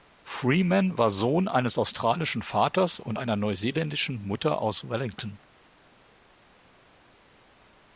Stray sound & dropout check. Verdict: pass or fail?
pass